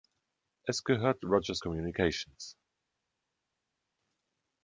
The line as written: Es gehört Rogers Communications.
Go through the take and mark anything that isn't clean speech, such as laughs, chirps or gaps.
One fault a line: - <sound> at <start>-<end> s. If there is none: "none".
none